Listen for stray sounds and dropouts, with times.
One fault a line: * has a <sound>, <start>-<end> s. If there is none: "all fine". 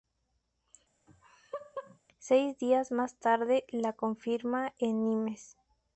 * has a laugh, 1.1-2.0 s